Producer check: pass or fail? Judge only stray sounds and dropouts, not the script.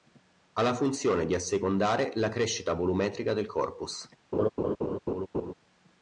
fail